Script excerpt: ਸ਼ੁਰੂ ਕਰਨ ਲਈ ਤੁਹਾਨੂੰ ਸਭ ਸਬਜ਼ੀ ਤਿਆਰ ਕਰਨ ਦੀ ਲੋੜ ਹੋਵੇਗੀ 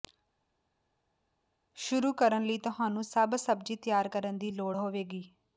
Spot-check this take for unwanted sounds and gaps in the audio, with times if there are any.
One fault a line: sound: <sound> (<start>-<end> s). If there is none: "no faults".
no faults